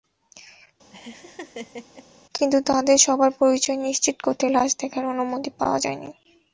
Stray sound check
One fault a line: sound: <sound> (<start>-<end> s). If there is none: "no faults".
sound: laugh (0.9-2.1 s)